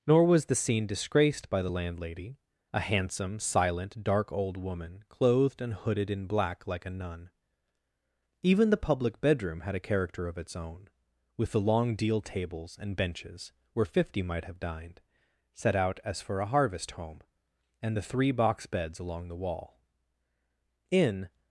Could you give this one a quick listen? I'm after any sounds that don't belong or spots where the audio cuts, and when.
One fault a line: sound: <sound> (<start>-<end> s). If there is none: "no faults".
no faults